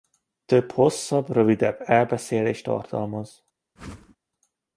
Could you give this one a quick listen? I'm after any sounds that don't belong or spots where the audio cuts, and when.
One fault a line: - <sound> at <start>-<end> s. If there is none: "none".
- whoosh at 3.8-4.2 s